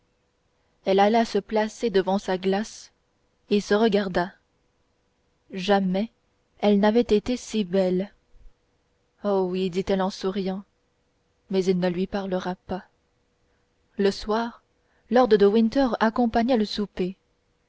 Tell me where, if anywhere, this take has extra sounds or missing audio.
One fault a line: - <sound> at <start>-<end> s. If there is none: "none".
none